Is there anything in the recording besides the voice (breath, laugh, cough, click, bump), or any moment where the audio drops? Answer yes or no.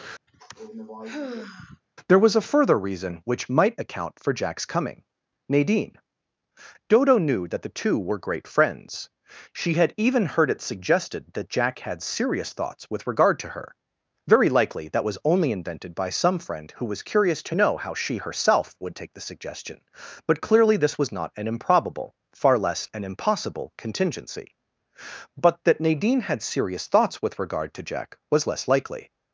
yes